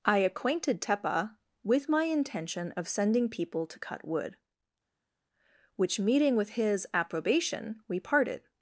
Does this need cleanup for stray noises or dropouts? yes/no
no